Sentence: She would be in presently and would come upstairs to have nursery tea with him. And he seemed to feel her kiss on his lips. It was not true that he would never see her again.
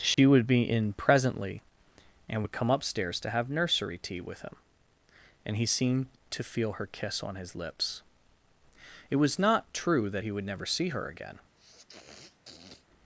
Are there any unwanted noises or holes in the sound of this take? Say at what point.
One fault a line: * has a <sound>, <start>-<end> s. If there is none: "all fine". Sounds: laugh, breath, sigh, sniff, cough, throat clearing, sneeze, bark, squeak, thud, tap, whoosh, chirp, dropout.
* has a dropout, 0.1-0.2 s
* has a sniff, 11.6-12.9 s